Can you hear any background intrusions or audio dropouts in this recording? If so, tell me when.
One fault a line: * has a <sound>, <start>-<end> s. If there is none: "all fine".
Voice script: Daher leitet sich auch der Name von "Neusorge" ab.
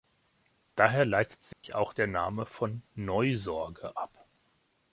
* has a dropout, 1.5-1.6 s